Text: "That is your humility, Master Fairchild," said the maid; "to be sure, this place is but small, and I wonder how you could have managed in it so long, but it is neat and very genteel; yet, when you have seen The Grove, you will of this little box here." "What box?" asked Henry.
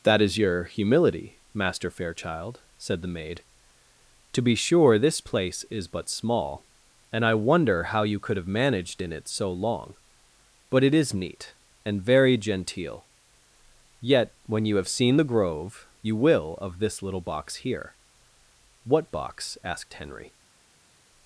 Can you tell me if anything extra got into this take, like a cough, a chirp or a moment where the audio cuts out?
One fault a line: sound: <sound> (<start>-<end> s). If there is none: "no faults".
no faults